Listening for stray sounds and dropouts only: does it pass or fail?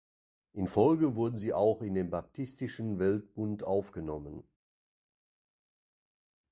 pass